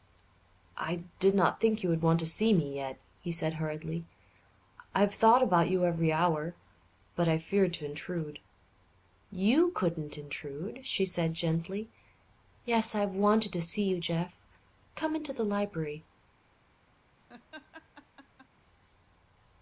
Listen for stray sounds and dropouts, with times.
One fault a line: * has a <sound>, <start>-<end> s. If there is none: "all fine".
* has a laugh, 17.3-18.5 s